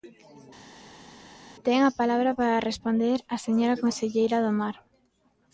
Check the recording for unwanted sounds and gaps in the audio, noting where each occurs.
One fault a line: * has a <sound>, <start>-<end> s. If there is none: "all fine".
all fine